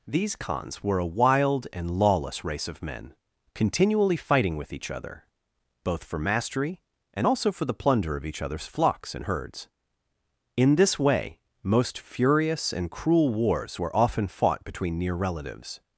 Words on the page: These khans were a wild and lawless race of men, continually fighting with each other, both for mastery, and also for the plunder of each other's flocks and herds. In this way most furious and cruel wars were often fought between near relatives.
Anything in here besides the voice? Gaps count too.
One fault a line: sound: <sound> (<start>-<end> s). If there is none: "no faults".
no faults